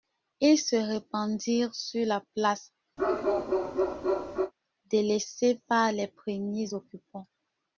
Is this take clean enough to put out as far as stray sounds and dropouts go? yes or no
no